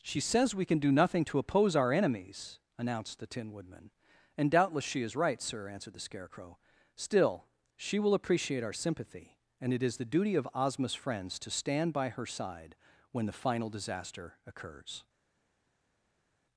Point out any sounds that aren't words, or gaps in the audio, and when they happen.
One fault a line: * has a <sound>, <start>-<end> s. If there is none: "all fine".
all fine